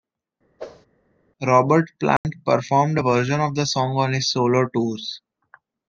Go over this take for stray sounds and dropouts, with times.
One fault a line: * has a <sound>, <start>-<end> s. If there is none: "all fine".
* has a whoosh, 0.6-0.9 s
* has a dropout, 2.2-2.2 s